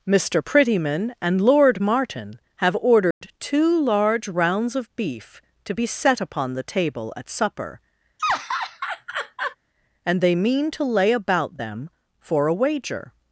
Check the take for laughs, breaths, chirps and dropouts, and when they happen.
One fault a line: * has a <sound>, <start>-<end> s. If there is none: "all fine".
* has a dropout, 3.1-3.2 s
* has a laugh, 8.2-9.6 s